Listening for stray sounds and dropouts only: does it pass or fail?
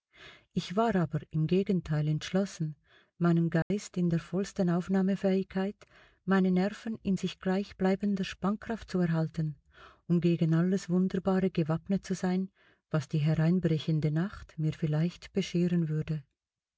fail